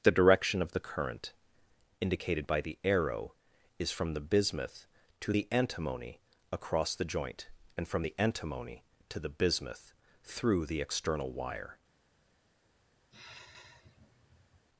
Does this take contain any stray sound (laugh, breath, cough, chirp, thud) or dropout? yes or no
yes